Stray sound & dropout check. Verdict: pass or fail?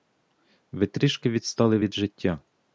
pass